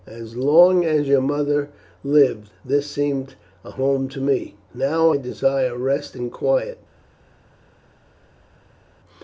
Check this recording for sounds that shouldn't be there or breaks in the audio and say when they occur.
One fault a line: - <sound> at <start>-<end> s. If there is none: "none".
none